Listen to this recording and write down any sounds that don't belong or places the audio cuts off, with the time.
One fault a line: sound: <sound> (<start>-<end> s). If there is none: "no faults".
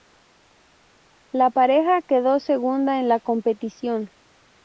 no faults